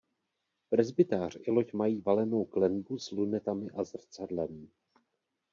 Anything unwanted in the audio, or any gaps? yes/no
no